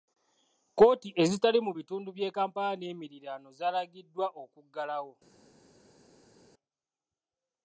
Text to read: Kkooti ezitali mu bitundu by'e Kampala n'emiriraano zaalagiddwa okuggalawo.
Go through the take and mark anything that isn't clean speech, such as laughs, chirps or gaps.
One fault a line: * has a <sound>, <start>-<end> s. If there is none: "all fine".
all fine